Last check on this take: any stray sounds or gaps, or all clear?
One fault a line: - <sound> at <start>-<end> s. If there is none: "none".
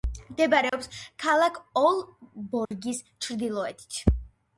- dropout at 0.7-0.7 s
- dropout at 2.7-2.7 s